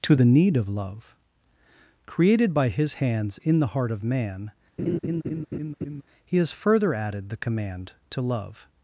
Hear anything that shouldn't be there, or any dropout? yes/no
yes